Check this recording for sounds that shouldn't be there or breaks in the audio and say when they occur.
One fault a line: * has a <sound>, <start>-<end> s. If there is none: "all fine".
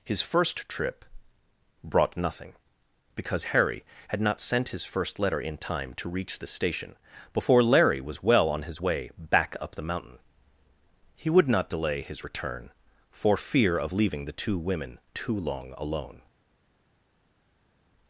all fine